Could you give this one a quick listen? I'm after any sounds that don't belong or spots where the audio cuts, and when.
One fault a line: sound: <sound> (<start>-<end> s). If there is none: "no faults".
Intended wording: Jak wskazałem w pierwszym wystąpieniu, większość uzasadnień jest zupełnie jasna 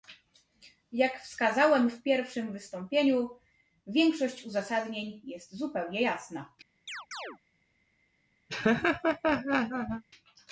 sound: chirp (6.9-7.4 s)
sound: laugh (8.5-10.0 s)